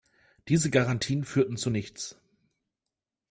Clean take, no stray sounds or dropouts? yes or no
yes